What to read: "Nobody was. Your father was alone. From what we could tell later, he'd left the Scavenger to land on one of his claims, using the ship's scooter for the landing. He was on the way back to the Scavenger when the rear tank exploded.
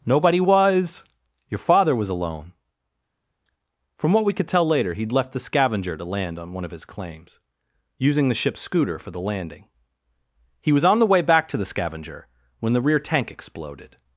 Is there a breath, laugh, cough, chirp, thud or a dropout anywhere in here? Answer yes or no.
no